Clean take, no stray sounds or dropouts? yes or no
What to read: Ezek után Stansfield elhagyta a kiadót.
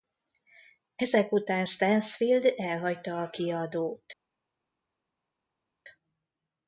yes